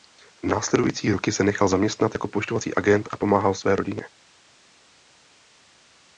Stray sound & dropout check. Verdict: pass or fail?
pass